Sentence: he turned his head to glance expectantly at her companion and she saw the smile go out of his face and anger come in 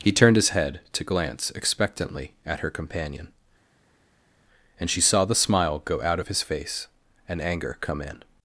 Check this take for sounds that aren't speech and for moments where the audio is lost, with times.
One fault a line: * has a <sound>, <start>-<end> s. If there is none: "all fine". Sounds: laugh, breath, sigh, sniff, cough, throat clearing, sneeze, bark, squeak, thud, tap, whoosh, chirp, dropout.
all fine